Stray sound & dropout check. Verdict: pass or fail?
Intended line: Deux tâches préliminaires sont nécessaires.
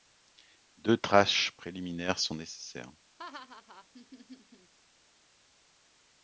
fail